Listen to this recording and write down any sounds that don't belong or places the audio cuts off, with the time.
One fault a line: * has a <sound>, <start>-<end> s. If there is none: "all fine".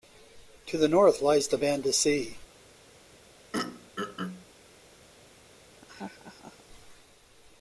* has a throat clearing, 3.5-4.4 s
* has a laugh, 5.8-6.6 s